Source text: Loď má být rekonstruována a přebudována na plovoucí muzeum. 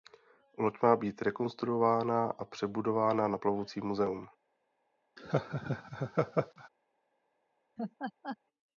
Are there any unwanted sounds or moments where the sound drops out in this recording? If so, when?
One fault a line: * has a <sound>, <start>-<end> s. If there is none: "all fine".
* has a laugh, 5.2-6.7 s
* has a laugh, 7.8-8.4 s